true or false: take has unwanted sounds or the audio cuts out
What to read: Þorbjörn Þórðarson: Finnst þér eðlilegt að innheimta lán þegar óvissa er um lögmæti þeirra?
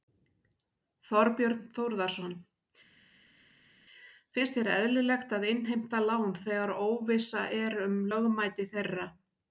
false